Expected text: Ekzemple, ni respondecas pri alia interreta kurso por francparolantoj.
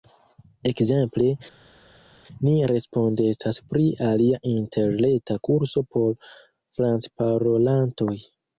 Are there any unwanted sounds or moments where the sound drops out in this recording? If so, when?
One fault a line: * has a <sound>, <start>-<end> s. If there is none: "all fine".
all fine